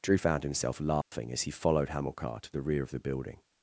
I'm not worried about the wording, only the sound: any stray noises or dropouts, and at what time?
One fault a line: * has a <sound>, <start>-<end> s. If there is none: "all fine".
* has a dropout, 1.0-1.1 s